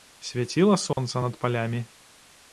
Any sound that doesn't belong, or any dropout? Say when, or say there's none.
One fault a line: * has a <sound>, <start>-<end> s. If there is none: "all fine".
* has a dropout, 0.9-1.0 s